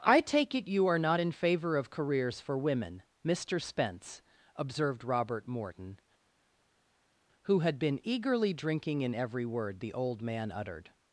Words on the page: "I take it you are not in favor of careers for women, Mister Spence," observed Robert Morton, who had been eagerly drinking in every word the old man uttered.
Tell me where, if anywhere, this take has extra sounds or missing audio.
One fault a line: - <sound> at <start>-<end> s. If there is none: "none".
none